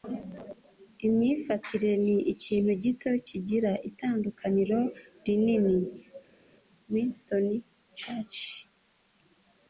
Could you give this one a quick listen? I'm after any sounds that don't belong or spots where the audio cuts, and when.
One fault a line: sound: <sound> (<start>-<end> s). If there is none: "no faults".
no faults